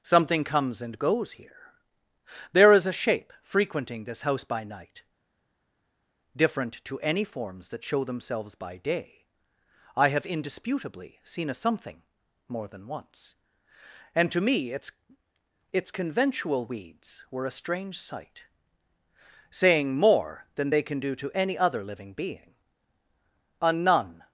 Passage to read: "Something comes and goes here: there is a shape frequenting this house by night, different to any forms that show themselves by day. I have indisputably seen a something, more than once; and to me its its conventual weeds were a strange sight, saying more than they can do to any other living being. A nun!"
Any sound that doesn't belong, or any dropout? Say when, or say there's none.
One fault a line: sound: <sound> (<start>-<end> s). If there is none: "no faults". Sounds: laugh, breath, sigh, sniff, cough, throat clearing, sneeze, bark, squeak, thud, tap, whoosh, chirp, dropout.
no faults